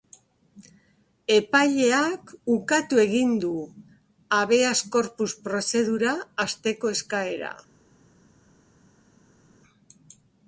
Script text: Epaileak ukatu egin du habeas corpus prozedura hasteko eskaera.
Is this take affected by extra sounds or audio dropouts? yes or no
no